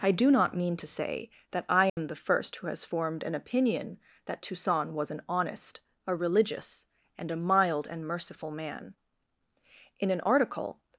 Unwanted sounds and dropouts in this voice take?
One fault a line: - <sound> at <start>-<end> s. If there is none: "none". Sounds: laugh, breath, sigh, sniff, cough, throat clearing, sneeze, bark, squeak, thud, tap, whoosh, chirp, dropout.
- dropout at 1.9-2.0 s